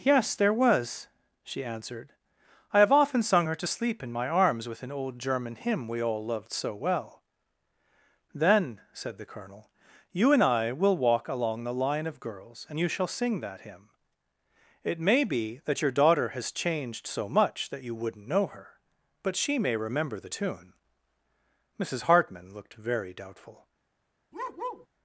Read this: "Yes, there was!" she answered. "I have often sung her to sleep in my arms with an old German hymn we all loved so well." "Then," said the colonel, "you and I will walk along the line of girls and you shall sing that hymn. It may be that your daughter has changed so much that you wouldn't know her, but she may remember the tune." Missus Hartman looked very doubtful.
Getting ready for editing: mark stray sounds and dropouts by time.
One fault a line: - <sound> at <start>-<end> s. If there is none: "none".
- bark at 24.3-24.9 s